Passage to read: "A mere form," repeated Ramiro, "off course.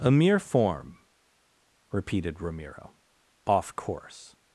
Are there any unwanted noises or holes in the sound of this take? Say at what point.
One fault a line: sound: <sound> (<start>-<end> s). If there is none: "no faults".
no faults